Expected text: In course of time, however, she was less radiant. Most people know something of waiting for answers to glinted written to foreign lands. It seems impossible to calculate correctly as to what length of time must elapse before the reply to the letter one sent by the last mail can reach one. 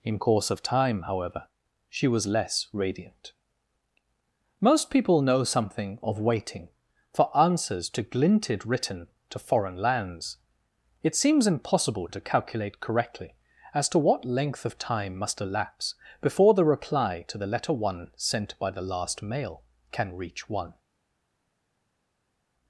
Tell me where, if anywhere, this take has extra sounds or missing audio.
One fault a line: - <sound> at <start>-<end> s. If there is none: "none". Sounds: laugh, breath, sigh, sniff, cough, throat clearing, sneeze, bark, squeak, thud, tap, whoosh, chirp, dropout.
none